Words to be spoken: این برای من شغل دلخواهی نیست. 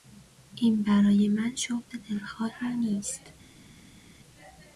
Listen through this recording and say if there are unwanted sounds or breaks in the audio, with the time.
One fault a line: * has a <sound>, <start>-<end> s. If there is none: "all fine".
all fine